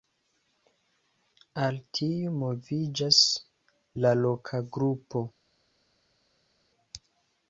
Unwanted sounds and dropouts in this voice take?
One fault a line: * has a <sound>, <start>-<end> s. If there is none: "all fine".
all fine